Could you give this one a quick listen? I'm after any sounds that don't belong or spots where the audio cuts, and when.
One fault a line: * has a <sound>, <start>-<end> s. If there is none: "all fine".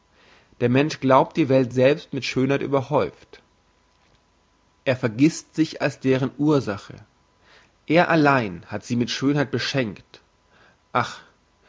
all fine